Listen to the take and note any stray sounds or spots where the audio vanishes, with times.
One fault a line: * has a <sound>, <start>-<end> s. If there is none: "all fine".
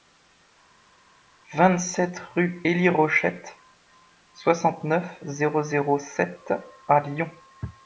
all fine